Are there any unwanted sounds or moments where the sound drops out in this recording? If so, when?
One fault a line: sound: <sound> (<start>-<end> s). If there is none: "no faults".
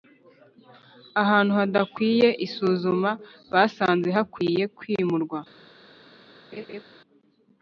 sound: laugh (6.5-6.8 s)